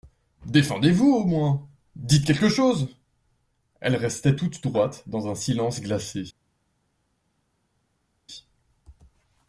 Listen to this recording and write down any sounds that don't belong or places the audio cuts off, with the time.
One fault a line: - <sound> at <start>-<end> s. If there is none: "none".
none